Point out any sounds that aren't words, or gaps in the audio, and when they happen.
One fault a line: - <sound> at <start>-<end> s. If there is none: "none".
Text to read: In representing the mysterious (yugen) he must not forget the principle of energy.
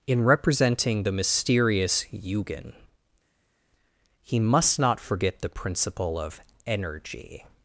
none